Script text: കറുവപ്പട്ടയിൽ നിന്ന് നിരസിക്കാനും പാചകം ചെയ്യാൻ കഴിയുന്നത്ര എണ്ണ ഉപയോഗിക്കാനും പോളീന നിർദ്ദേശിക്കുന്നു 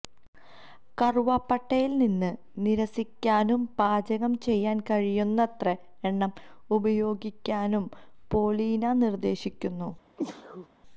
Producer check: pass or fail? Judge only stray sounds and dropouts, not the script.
fail